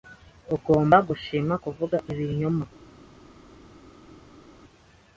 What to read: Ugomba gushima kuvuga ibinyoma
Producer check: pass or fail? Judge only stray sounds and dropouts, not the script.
pass